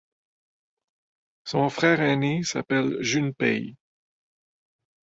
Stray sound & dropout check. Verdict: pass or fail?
pass